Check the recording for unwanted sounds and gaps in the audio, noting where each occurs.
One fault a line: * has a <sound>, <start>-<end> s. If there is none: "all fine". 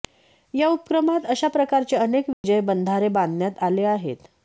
* has a dropout, 2.3-2.4 s